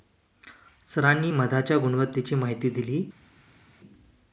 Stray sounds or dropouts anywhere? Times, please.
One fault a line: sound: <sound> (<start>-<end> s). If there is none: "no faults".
no faults